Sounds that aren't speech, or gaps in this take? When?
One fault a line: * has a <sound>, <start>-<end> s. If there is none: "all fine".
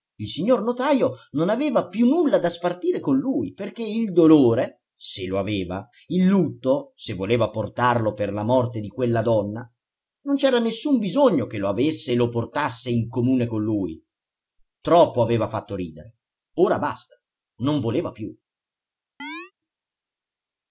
* has a chirp, 19.2-19.5 s